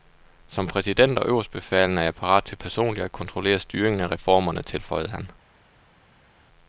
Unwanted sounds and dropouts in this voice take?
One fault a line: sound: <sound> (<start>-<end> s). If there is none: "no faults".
no faults